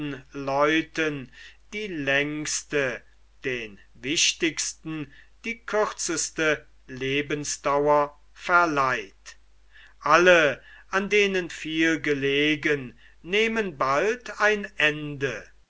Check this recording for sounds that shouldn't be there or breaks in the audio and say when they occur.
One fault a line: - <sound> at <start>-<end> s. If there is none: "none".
none